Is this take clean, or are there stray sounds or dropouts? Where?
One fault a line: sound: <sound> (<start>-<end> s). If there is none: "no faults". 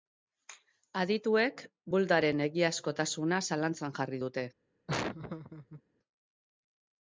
sound: laugh (4.9-5.8 s)